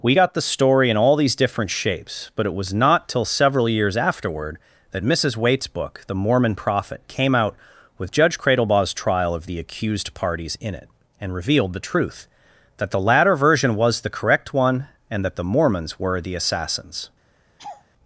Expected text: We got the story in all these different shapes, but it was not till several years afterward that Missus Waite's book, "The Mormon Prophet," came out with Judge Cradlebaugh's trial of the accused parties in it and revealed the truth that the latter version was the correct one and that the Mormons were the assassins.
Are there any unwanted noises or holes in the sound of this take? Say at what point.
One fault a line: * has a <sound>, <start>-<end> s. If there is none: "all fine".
* has a laugh, 17.6-17.9 s